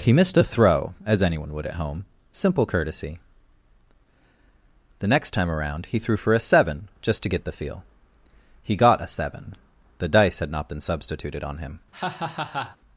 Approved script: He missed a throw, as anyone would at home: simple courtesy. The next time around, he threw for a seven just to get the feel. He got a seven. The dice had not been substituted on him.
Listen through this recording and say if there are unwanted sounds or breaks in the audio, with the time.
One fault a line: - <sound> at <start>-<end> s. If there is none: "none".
- laugh at 11.9-12.8 s